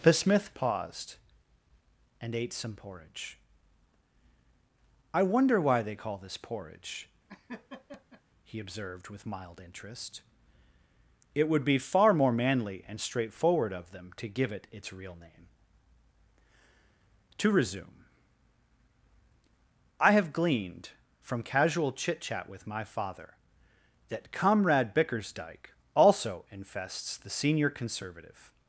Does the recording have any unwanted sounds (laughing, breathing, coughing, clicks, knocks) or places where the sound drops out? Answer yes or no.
yes